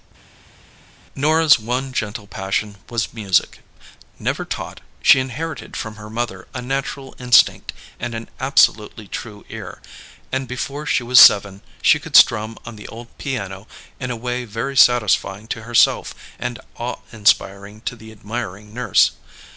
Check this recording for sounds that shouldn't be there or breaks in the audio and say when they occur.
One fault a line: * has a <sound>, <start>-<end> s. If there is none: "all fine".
all fine